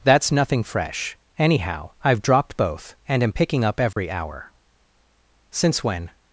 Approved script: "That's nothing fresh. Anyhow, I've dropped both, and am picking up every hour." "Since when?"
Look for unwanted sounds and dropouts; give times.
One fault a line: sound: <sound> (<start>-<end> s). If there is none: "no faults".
sound: dropout (3.9-4.0 s)